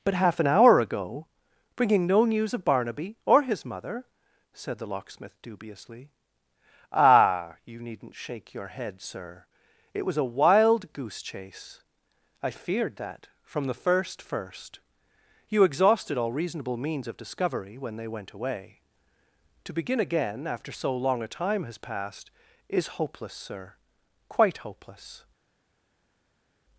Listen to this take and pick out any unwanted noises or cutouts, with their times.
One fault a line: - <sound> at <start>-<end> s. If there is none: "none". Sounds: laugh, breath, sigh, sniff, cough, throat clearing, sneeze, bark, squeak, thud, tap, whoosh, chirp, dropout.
none